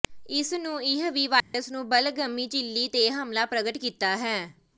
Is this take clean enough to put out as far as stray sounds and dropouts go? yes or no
no